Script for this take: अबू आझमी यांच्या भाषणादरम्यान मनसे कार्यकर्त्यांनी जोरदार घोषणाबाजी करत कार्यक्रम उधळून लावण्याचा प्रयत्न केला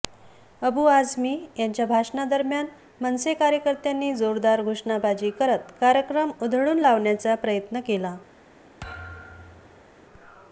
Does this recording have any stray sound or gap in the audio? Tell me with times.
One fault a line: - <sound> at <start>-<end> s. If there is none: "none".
- thud at 8.8-9.9 s